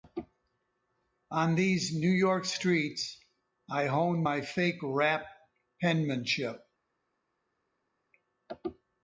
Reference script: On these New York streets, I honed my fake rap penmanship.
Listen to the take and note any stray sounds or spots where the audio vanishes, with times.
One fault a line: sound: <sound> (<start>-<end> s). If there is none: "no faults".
no faults